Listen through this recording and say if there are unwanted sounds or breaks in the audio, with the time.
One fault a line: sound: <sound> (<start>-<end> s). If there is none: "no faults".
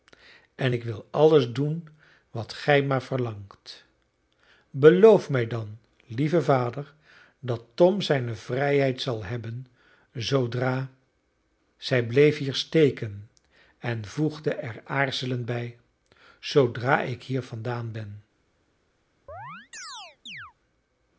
sound: chirp (19.3-20.5 s)